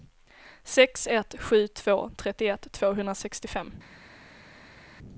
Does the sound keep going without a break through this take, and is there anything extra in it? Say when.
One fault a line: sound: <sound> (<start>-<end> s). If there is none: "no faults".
no faults